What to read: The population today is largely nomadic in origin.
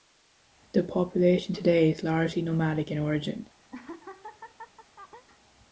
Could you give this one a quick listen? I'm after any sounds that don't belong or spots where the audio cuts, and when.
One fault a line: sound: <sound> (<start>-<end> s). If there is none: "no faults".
sound: laugh (3.7-5.3 s)